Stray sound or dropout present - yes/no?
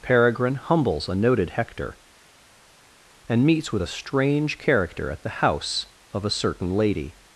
no